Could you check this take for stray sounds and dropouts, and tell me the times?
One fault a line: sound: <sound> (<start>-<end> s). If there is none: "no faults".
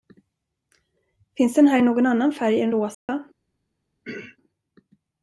sound: dropout (2.9-3.1 s)
sound: throat clearing (4.0-4.4 s)